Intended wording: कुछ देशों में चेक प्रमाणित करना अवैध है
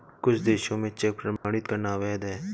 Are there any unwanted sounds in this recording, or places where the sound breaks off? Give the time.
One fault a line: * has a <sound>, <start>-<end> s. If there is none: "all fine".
* has a dropout, 1.4-1.4 s